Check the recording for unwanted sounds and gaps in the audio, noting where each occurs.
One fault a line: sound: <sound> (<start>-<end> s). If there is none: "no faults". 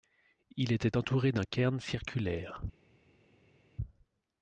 no faults